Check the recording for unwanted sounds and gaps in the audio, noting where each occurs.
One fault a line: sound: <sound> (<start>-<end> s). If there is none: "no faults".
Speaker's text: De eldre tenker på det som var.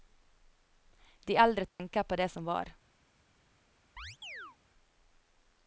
sound: dropout (1.7-1.8 s)
sound: chirp (4.0-4.6 s)